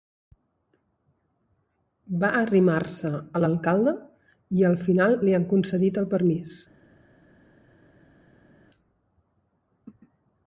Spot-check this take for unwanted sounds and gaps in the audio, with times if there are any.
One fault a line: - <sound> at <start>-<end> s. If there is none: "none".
none